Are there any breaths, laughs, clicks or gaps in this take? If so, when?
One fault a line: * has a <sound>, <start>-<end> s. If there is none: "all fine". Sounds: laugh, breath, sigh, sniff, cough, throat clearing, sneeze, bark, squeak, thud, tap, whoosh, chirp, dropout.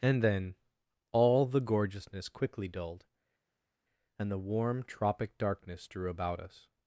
all fine